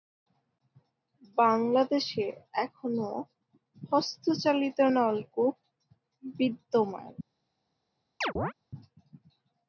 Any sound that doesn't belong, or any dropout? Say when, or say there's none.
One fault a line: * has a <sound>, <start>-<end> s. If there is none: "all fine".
* has a chirp, 8.2-8.5 s